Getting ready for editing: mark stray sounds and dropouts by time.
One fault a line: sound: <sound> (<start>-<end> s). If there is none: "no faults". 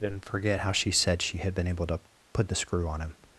no faults